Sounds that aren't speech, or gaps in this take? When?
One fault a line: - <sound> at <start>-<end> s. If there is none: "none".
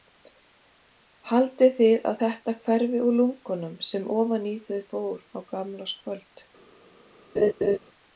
- laugh at 7.4-7.8 s